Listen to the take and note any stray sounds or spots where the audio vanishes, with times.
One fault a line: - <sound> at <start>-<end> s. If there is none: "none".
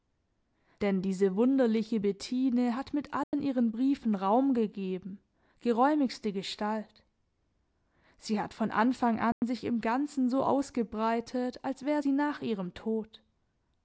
- dropout at 3.2-3.3 s
- dropout at 9.3-9.4 s